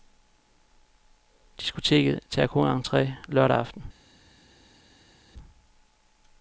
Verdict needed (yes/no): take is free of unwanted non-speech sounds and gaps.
yes